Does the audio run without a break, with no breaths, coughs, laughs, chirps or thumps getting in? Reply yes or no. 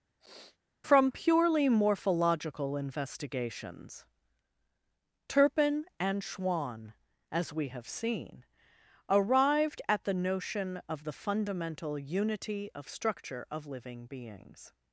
no